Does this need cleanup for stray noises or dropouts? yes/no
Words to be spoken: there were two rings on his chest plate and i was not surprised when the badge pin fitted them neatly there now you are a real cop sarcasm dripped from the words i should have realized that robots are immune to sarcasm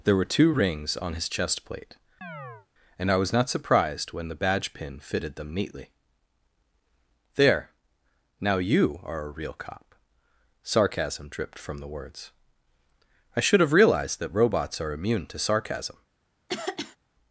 yes